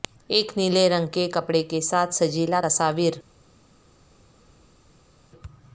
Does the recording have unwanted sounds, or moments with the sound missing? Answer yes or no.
no